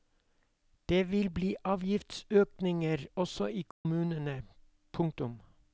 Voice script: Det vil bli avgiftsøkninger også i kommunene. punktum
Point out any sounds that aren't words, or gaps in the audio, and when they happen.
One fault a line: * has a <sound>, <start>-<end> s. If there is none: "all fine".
* has a dropout, 3.7-3.9 s